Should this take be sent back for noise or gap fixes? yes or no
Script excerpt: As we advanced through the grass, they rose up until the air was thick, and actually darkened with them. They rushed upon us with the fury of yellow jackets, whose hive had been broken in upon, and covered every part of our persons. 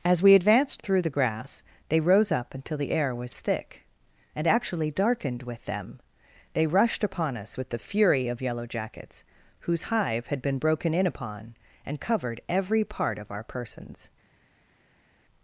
no